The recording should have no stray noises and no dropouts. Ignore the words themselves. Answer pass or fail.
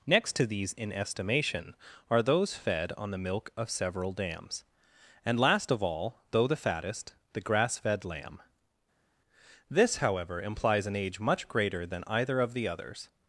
pass